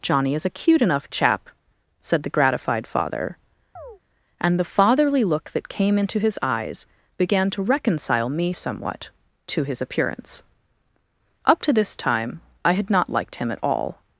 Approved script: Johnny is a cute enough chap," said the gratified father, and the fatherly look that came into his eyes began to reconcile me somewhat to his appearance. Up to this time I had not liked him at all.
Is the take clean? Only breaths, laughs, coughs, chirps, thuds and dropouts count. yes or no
no